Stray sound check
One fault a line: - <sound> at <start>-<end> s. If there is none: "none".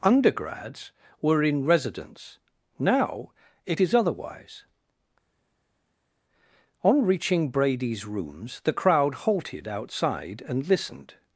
none